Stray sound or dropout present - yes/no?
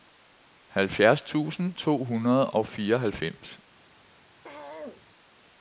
yes